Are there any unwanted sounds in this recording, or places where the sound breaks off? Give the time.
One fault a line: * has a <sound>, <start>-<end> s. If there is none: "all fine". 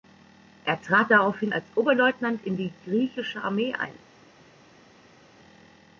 all fine